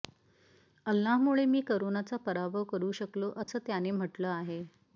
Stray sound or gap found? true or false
true